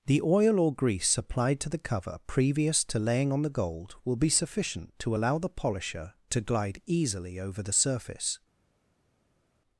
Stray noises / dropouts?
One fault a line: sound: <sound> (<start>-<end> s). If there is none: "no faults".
no faults